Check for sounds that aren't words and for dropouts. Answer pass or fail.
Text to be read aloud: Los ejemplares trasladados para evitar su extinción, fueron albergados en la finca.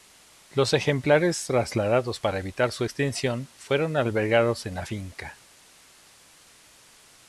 pass